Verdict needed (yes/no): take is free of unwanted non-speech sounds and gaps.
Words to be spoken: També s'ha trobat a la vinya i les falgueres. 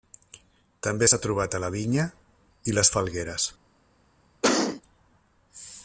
no